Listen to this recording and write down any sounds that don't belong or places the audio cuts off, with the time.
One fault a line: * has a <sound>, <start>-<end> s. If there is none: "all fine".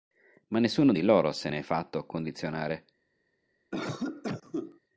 * has a cough, 3.7-4.8 s